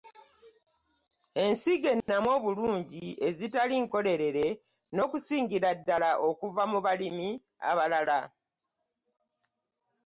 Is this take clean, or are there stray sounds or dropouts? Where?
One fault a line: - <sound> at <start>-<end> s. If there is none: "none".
- dropout at 2.0-2.1 s